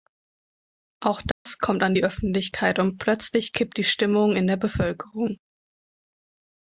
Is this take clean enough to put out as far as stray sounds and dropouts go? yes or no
no